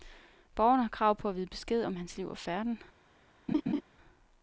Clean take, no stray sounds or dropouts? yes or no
no